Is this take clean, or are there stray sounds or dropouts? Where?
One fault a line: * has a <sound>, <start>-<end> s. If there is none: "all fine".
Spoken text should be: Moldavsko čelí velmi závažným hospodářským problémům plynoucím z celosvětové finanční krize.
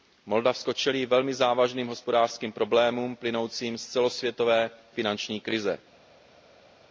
all fine